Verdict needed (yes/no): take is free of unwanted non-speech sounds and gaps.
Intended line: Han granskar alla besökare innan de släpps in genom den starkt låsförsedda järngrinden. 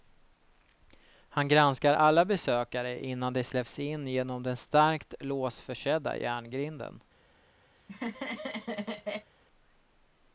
no